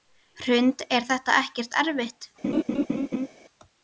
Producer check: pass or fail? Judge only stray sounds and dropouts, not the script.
fail